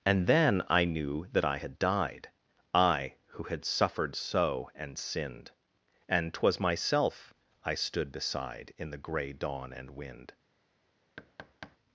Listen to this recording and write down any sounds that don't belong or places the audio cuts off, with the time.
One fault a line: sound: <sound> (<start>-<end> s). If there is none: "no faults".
sound: thud (11.2-11.8 s)